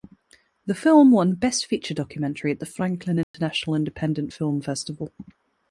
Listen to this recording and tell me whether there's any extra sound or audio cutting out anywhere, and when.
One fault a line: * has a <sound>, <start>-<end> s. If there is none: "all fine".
* has a dropout, 3.2-3.3 s